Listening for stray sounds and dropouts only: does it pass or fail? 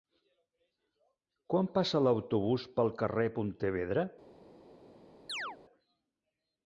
fail